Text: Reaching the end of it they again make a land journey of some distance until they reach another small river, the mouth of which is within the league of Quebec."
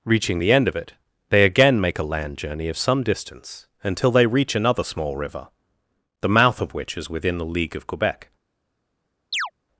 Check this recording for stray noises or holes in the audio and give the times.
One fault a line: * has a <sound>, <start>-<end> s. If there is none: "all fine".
* has a chirp, 9.3-9.5 s